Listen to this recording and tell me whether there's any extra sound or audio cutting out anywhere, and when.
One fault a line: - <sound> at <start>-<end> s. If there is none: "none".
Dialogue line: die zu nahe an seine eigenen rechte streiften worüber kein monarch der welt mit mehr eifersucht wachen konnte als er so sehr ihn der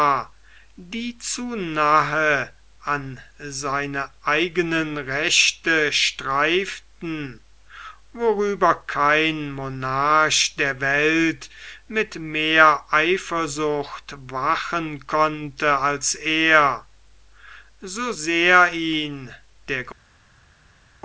none